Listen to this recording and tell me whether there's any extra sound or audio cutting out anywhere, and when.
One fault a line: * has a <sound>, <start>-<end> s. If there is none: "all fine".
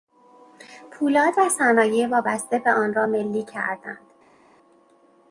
all fine